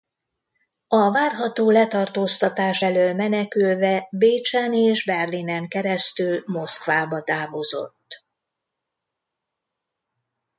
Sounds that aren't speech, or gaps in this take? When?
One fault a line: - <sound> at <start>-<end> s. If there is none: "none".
none